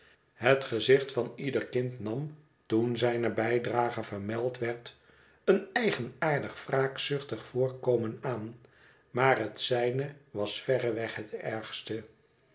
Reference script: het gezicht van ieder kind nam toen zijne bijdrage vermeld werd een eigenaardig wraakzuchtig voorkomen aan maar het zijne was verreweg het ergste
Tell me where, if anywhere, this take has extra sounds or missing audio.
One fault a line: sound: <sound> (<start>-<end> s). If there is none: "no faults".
no faults